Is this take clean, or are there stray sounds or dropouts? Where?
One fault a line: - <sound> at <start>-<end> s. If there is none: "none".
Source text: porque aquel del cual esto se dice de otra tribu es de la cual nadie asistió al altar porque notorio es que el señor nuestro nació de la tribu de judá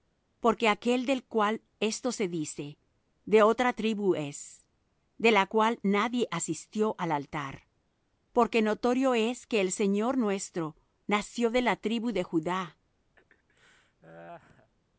- laugh at 13.2-14.7 s